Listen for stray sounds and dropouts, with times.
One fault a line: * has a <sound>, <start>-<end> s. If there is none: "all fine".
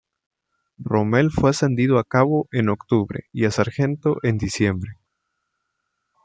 all fine